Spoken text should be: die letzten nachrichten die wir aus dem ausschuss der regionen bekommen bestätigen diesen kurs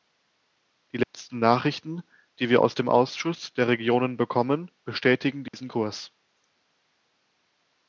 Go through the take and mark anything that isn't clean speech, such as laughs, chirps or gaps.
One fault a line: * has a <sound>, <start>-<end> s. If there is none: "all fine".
* has a dropout, 1.0-1.1 s
* has a dropout, 5.5-5.5 s